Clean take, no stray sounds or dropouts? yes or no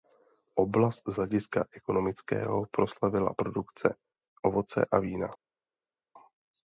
yes